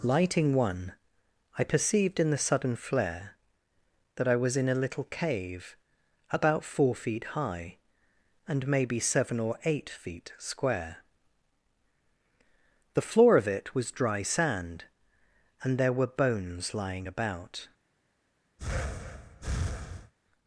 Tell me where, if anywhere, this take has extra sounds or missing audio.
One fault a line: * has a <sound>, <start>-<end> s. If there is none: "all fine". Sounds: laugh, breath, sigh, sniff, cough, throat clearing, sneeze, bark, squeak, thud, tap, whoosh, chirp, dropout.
* has a breath, 18.6-20.1 s